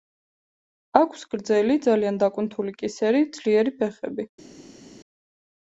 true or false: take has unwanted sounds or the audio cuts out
false